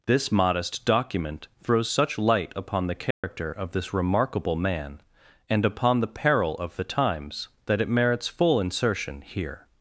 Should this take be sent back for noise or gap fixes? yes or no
yes